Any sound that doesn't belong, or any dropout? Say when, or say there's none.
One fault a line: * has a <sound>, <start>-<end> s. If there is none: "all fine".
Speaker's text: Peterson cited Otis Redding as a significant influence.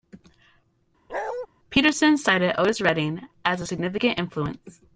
* has a bark, 1.1-1.5 s